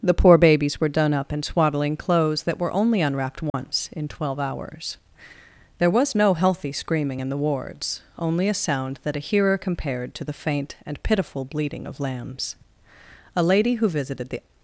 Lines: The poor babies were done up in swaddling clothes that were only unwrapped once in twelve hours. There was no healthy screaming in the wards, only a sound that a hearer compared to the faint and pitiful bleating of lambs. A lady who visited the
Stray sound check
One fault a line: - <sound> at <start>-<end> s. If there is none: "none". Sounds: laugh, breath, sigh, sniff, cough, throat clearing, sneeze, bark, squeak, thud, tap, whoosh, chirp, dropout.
- dropout at 3.5-3.5 s